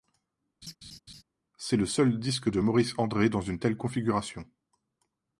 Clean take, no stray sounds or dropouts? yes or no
no